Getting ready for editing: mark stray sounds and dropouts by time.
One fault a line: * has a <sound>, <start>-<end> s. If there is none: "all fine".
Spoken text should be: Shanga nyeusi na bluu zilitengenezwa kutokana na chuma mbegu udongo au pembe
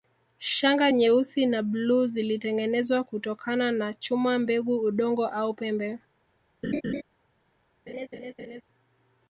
* has a laugh, 6.6-7.0 s
* has a laugh, 7.9-8.6 s